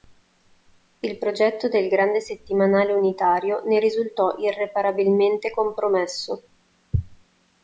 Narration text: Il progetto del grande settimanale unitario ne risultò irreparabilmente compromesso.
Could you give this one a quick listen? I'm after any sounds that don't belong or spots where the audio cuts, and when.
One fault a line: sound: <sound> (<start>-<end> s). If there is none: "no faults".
no faults